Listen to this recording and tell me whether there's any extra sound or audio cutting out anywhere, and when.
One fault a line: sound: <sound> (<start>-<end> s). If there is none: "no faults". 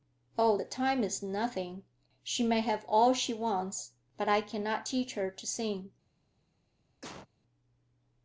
sound: cough (7.0-7.3 s)